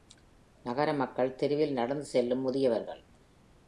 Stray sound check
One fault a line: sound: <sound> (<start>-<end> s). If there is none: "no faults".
no faults